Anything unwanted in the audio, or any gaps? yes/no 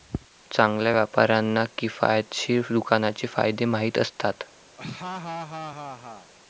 yes